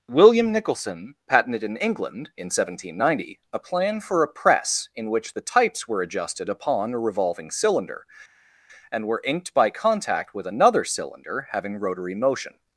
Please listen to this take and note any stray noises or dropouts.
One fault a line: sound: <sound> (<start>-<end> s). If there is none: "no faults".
no faults